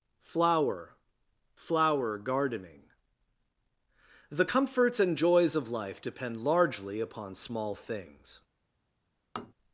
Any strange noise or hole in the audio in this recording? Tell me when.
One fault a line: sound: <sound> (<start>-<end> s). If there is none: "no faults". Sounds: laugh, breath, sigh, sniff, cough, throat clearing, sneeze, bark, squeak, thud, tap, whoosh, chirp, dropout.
sound: tap (9.4-9.5 s)